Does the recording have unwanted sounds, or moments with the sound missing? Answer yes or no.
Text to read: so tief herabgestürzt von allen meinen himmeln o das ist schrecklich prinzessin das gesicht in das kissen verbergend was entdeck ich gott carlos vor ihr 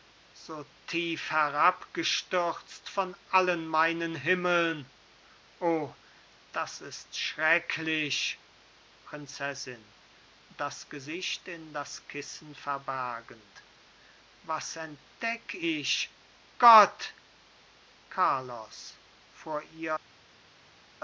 no